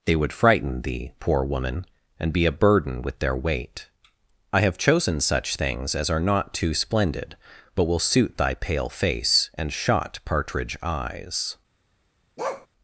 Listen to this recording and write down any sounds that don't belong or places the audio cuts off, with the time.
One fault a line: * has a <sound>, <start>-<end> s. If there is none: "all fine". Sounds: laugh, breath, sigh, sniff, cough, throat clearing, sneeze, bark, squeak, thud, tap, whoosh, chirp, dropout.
* has a bark, 12.4-12.7 s